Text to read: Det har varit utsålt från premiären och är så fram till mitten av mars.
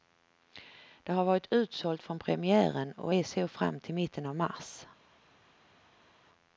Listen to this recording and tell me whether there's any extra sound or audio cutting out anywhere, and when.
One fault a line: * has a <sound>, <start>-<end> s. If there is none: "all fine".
all fine